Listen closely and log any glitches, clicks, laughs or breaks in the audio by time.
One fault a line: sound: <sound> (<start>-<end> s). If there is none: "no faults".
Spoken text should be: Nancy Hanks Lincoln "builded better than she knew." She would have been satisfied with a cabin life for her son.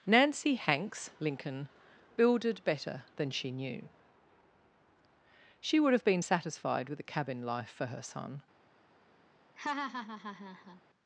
sound: laugh (9.6-10.8 s)